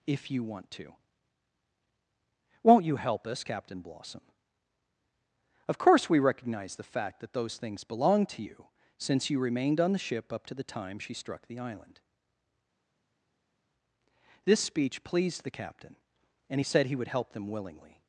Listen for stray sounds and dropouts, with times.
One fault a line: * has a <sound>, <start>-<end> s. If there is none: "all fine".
all fine